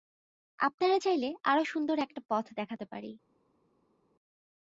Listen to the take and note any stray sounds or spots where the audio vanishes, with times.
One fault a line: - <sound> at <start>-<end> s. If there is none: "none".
none